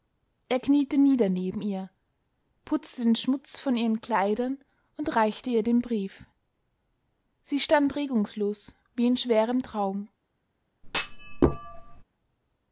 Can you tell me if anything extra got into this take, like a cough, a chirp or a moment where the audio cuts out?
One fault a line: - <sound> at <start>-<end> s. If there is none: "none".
- thud at 10.8-12.0 s